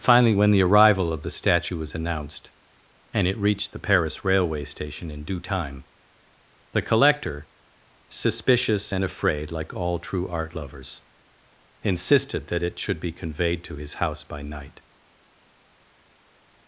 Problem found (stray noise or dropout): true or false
false